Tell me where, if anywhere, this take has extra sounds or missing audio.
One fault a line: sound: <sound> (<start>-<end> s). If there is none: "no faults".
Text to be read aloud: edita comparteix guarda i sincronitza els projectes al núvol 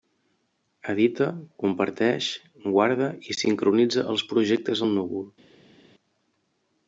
no faults